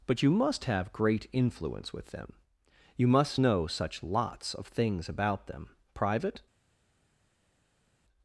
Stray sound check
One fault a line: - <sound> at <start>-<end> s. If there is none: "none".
none